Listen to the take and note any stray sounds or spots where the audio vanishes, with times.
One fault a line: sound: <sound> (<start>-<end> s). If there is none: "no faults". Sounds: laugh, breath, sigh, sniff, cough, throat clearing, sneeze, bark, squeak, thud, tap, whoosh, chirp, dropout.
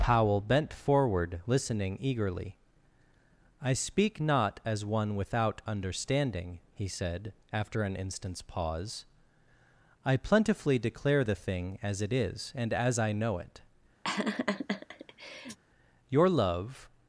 sound: laugh (14.0-15.6 s)